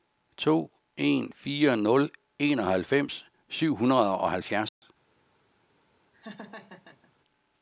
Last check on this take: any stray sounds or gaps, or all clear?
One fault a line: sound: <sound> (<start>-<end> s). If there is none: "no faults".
sound: dropout (4.7-4.8 s)
sound: laugh (6.1-7.1 s)